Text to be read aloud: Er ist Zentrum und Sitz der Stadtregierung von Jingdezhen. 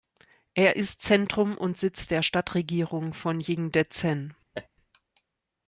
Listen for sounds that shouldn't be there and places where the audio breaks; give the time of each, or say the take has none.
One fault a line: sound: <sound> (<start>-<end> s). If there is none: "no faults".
sound: laugh (4.5-4.7 s)